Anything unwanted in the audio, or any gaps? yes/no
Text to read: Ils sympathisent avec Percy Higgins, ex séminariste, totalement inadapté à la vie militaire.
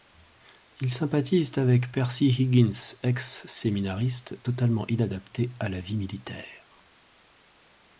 no